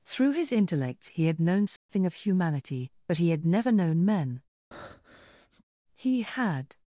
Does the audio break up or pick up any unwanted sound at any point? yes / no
yes